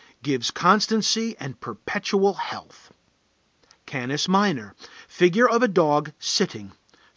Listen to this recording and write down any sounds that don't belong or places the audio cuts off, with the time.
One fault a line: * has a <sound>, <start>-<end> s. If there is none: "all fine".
all fine